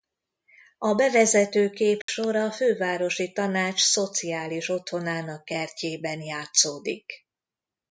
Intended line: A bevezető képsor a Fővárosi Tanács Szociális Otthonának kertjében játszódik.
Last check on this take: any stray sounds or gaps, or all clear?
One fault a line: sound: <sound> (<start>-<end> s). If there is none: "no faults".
sound: dropout (2.0-2.1 s)